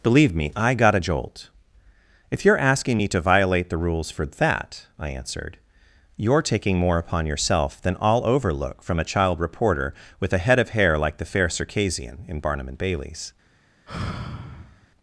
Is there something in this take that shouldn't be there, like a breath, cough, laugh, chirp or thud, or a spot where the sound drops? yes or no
yes